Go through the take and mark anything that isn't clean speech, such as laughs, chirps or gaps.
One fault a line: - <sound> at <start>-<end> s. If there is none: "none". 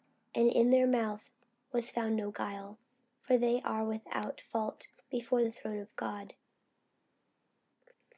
none